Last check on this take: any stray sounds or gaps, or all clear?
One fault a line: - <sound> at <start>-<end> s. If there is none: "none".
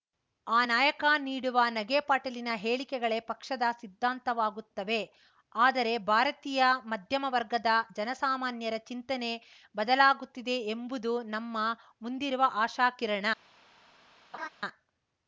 - laugh at 14.3-14.5 s